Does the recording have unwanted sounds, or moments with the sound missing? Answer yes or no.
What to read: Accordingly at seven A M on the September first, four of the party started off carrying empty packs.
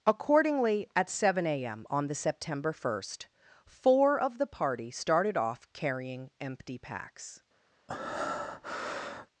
yes